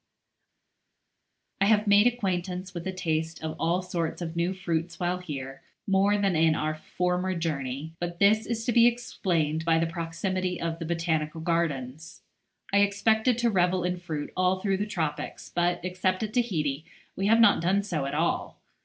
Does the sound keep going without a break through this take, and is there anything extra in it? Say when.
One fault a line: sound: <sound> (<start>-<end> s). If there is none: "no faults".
no faults